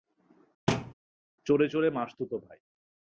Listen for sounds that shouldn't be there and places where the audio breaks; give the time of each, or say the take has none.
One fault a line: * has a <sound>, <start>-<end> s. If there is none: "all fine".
* has a thud, 0.7-0.9 s